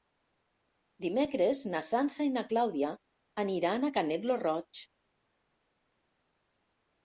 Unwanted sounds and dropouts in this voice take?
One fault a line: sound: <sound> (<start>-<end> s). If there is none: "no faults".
no faults